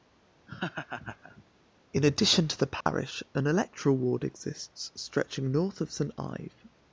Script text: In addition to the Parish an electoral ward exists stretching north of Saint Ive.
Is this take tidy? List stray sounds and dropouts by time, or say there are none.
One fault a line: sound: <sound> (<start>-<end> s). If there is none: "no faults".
sound: laugh (0.5-1.4 s)
sound: dropout (2.8-2.9 s)